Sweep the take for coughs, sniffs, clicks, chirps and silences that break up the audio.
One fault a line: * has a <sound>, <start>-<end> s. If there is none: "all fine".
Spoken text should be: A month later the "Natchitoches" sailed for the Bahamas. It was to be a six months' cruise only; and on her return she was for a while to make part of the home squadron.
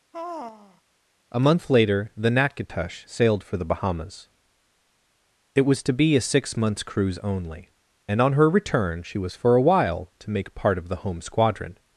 * has a sigh, 0.1-0.8 s